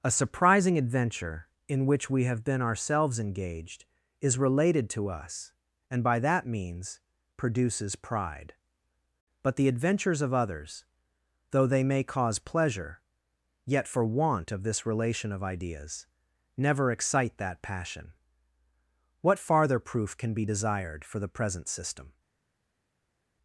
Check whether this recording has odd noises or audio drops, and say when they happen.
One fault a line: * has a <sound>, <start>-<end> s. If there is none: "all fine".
all fine